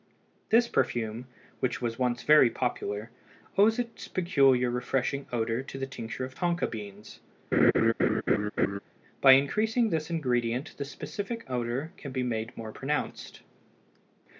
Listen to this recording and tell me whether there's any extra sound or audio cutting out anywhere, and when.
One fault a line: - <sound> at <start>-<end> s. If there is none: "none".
- laugh at 7.5-8.8 s